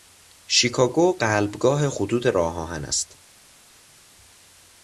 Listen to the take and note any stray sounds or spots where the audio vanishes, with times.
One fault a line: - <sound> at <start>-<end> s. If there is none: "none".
none